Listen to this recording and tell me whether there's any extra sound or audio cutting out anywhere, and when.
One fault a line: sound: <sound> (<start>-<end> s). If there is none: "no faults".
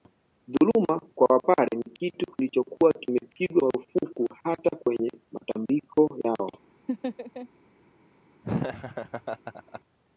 sound: laugh (6.9-7.5 s)
sound: laugh (8.4-9.8 s)